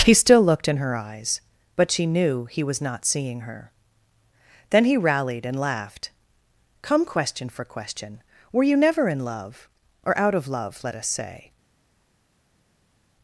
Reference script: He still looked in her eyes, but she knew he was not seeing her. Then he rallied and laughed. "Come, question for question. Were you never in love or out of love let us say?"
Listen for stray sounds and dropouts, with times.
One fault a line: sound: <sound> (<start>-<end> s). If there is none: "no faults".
no faults